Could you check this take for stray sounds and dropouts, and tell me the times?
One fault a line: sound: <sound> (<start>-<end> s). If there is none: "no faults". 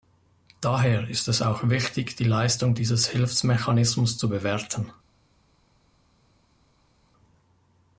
no faults